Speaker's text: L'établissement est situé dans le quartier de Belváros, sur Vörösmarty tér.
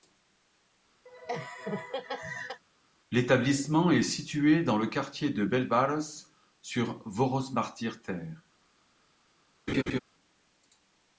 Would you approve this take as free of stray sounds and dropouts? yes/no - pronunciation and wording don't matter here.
no